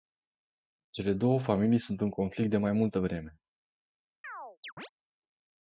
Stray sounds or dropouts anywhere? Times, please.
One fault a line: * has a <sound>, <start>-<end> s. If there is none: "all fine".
* has a chirp, 4.2-4.9 s